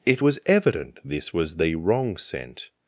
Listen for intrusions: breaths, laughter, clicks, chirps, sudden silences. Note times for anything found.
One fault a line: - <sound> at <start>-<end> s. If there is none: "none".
none